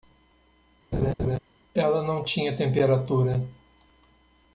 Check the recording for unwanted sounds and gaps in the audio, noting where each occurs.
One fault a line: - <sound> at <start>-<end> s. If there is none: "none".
- laugh at 0.9-1.4 s